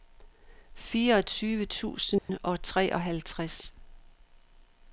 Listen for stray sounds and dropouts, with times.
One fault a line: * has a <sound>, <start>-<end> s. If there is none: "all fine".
* has a dropout, 2.2-2.3 s